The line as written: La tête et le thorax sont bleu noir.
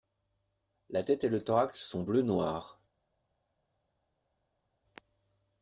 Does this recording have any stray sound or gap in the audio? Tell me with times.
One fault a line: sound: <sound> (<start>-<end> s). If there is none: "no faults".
no faults